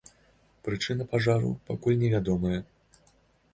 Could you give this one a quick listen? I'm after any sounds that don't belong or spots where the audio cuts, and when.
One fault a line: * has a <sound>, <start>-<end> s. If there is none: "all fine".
all fine